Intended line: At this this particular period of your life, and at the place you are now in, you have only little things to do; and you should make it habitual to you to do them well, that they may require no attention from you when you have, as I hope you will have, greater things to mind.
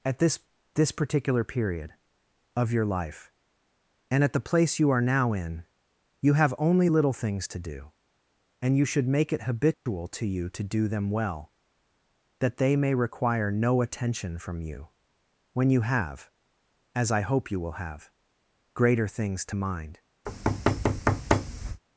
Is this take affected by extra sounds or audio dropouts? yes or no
yes